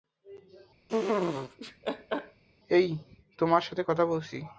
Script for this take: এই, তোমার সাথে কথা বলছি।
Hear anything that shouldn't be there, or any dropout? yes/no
yes